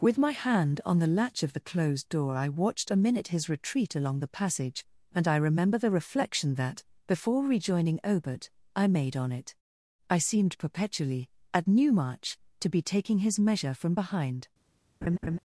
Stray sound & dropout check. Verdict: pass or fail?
fail